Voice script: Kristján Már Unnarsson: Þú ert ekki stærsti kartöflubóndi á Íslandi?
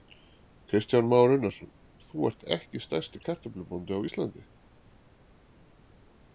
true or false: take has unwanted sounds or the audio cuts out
false